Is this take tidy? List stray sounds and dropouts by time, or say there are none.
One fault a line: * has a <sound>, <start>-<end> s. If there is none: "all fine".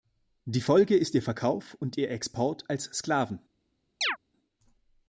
* has a chirp, 4.0-4.2 s